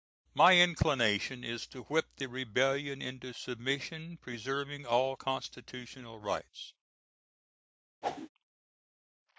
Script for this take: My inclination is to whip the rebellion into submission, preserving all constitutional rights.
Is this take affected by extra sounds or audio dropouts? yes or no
yes